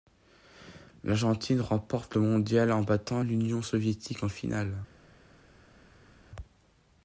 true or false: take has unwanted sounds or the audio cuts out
false